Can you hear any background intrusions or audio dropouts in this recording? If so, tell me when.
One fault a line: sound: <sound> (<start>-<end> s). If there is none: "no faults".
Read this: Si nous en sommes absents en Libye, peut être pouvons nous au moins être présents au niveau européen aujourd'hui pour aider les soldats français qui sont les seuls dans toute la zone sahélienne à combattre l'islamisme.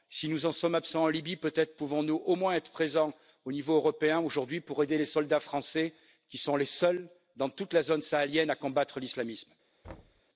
sound: thud (9.8-10.2 s)